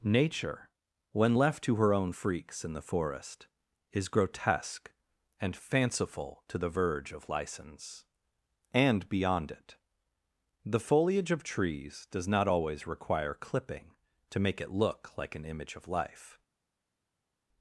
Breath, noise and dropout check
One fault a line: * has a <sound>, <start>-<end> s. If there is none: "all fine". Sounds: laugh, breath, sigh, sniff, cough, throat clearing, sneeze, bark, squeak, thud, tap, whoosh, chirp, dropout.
all fine